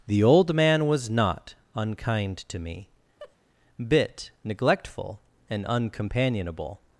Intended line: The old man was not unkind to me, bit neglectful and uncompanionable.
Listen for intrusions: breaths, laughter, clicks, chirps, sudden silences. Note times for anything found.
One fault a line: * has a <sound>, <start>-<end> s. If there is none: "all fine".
* has a laugh, 3.2-3.4 s